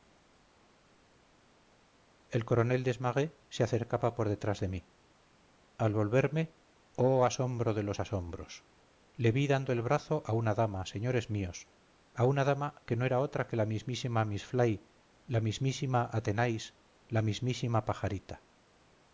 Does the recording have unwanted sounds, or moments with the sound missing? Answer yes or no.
no